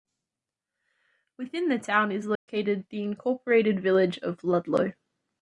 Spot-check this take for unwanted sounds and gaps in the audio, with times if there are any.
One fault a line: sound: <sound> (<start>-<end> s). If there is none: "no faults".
sound: dropout (2.4-2.5 s)